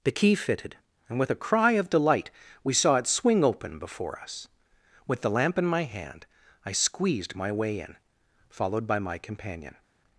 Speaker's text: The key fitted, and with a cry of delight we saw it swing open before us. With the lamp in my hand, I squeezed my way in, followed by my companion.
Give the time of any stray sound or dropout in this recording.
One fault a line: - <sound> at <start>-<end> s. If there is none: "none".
none